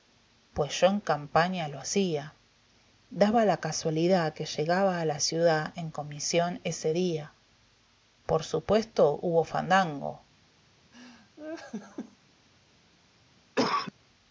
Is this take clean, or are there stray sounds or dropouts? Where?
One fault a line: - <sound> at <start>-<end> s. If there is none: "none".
- laugh at 10.9-12.2 s
- cough at 13.6-13.9 s